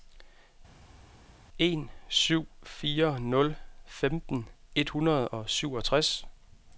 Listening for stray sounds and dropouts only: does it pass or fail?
pass